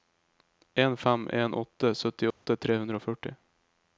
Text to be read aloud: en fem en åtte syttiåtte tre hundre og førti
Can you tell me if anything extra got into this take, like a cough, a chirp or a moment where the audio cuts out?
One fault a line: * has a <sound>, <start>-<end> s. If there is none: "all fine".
* has a dropout, 2.3-2.5 s